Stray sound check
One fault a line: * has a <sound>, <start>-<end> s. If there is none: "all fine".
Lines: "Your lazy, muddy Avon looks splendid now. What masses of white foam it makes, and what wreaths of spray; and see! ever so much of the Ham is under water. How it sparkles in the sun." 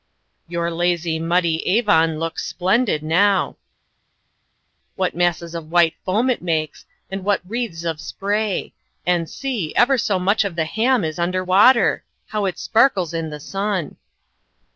all fine